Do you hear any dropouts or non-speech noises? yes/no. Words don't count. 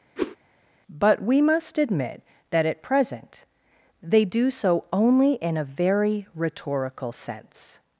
yes